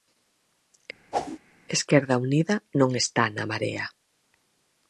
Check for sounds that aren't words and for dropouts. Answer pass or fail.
fail